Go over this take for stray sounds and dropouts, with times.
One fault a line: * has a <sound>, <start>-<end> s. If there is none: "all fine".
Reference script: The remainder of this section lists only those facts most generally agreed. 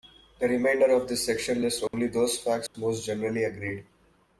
* has a dropout, 1.9-1.9 s
* has a dropout, 2.7-2.7 s